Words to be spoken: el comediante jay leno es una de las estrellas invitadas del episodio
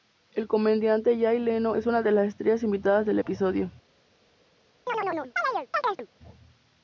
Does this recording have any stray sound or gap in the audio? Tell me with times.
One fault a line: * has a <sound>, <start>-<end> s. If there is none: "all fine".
* has a chirp, 4.9-6.1 s